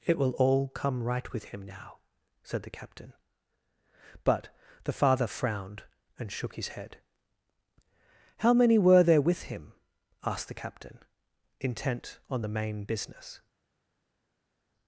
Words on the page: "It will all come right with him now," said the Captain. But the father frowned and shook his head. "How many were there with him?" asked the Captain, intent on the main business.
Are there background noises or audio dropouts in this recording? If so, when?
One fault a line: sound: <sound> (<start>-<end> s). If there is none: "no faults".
no faults